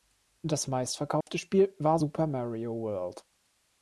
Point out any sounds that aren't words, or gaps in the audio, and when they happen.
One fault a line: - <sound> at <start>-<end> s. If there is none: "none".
- dropout at 1.2-1.3 s